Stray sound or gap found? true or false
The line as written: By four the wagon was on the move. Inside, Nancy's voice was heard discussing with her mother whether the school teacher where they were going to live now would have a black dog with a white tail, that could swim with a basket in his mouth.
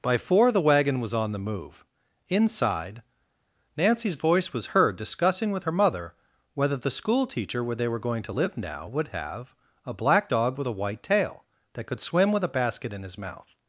false